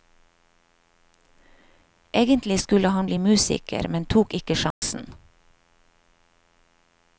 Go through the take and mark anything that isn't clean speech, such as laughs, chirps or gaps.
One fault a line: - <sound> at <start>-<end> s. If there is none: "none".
- dropout at 4.7-4.8 s